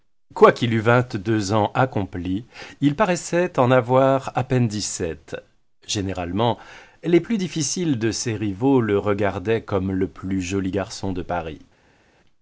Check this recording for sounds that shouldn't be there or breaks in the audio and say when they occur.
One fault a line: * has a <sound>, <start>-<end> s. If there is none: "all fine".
all fine